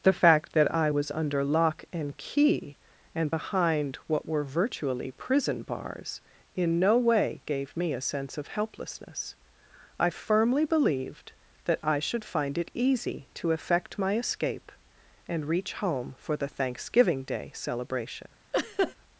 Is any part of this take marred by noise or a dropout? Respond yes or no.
yes